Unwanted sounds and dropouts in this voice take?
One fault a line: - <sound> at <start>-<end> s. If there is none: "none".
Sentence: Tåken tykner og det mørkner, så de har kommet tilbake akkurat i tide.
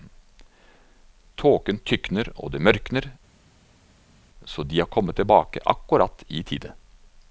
none